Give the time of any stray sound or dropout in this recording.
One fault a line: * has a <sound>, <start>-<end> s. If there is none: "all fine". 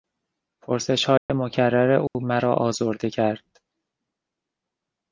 * has a dropout, 1.2-1.3 s
* has a dropout, 2.1-2.1 s